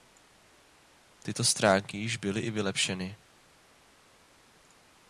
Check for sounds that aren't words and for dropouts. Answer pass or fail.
pass